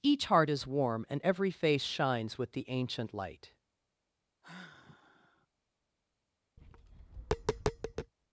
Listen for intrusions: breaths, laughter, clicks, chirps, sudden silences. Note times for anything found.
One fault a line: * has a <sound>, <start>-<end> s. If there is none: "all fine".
* has a sigh, 4.4-5.5 s
* has a tap, 6.6-8.1 s